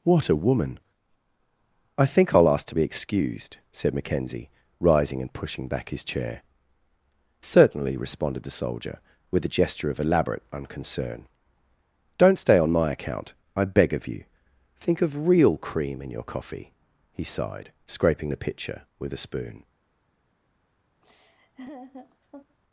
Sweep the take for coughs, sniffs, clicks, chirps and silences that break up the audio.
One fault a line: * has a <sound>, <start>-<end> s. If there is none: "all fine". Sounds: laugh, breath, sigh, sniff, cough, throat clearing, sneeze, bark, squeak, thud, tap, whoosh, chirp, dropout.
* has a laugh, 21.0-22.6 s